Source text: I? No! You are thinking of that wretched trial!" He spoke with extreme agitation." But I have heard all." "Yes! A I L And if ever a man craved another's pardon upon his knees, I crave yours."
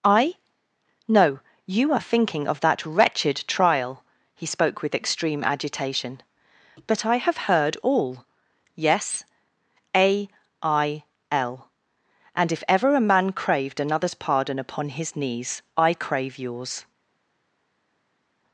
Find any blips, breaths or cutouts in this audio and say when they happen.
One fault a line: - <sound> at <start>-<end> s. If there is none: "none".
none